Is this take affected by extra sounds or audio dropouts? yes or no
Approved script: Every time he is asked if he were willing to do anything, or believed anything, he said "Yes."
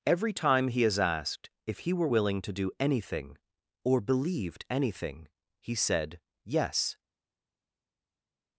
no